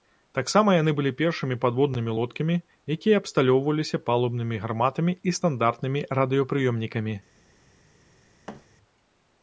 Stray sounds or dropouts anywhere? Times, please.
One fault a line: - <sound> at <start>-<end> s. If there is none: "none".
- thud at 8.5-8.7 s